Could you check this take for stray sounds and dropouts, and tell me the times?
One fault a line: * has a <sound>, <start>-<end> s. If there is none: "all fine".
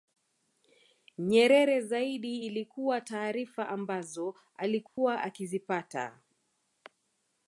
* has a dropout, 4.9-5.0 s